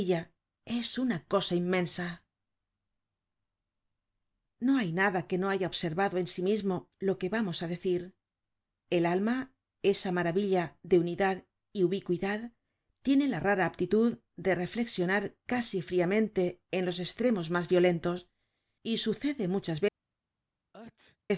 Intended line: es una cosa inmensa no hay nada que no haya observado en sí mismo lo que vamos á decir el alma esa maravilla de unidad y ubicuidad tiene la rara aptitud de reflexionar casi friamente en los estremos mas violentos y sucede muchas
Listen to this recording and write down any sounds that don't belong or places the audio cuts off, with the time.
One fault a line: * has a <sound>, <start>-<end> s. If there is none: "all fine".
* has a sneeze, 20.7-21.2 s